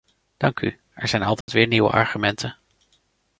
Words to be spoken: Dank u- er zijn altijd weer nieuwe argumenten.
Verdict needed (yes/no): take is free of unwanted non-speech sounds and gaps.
no